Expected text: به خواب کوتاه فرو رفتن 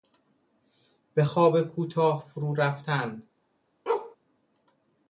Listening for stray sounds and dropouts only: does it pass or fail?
fail